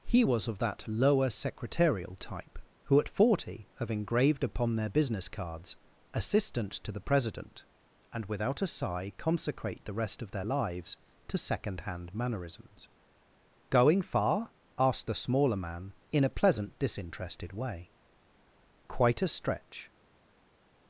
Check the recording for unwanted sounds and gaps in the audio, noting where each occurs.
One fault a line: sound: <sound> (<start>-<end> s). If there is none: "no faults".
no faults